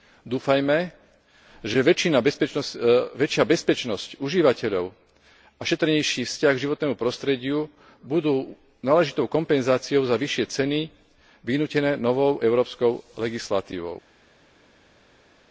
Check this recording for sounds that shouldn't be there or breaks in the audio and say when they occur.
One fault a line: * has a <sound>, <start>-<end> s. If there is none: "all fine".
all fine